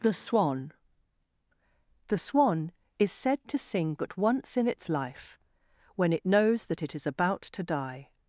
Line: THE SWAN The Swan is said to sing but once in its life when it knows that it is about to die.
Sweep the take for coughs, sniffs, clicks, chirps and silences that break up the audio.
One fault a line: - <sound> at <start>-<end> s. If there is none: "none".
none